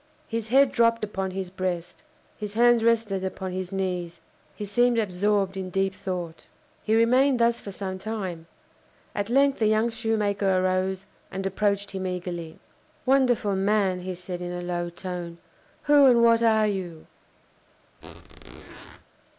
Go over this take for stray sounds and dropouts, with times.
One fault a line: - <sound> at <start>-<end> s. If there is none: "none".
- squeak at 18.0-19.0 s